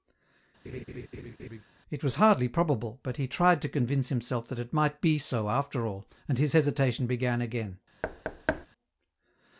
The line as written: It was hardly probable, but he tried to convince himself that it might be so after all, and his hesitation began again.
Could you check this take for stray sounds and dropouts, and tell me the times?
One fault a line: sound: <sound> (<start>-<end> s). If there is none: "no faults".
sound: laugh (0.6-1.6 s)
sound: thud (8.0-8.7 s)